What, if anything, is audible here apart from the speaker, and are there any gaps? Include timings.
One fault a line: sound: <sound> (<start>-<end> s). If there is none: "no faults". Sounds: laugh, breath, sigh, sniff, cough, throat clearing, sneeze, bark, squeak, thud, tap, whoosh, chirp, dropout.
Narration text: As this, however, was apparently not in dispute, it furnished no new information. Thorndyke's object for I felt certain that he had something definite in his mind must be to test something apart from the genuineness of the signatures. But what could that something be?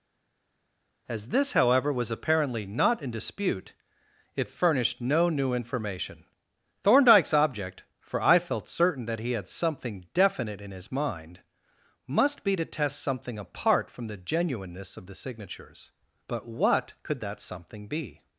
no faults